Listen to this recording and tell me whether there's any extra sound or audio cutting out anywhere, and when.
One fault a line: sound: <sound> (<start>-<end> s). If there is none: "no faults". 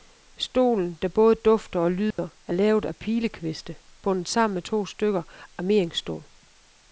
sound: dropout (2.1-2.2 s)